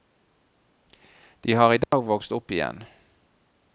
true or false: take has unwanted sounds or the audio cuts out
true